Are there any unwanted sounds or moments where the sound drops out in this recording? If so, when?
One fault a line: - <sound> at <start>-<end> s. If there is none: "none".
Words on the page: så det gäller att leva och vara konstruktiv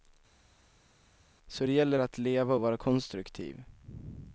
none